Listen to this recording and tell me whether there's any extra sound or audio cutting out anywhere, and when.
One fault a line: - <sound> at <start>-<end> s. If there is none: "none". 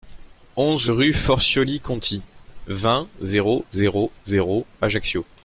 none